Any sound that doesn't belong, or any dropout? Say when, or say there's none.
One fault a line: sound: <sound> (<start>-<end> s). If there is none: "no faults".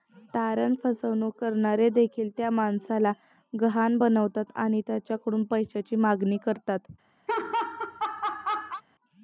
sound: laugh (7.3-8.8 s)